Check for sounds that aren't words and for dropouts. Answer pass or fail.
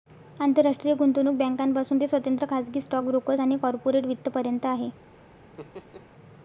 fail